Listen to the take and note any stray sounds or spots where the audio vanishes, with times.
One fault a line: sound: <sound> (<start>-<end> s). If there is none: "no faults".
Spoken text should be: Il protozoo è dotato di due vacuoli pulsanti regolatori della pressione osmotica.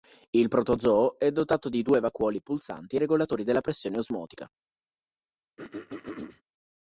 sound: throat clearing (5.6-6.4 s)